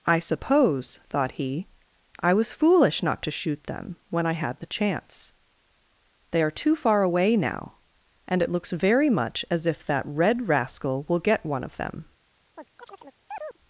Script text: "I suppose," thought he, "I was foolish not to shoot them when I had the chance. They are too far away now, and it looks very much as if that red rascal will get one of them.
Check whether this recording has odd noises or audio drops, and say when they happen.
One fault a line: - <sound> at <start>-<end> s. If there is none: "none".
- chirp at 12.5-13.6 s